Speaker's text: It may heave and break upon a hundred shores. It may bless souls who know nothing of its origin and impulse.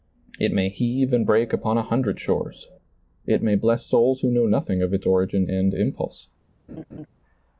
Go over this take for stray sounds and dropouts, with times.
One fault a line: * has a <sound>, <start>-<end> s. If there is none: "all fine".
* has a laugh, 6.7-7.1 s